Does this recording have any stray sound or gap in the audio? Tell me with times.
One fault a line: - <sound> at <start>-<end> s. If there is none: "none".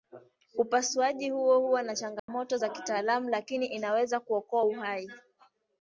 - dropout at 2.2-2.3 s